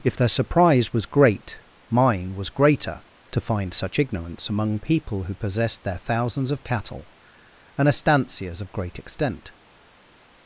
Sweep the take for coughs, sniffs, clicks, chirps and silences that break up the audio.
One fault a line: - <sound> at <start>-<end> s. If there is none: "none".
none